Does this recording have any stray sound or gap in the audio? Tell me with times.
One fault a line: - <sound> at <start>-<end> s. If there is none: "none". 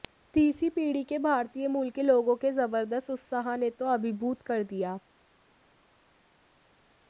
none